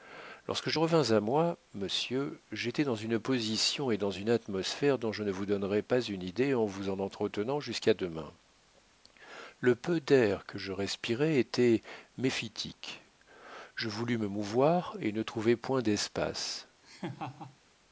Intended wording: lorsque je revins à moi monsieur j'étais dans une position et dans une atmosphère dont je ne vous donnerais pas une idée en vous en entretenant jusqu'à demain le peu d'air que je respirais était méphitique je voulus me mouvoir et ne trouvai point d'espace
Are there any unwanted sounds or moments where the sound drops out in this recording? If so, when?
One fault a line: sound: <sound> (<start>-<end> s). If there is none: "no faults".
sound: laugh (16.8-17.6 s)